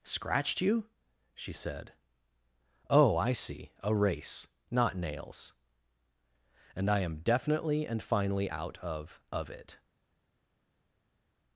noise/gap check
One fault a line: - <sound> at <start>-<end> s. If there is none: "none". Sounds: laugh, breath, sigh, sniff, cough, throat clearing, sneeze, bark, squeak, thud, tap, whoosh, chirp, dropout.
none